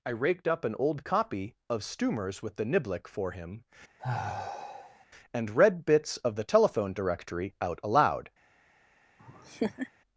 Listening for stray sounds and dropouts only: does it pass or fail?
fail